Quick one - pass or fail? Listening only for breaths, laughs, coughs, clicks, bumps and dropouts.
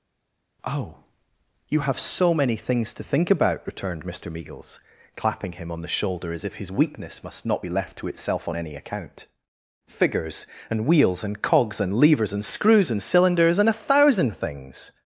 pass